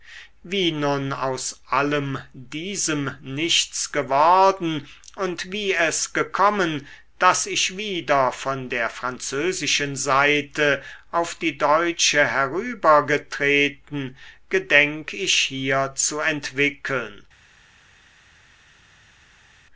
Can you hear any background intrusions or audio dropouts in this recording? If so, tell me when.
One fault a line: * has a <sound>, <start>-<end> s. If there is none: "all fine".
all fine